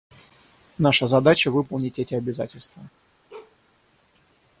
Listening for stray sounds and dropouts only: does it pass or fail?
fail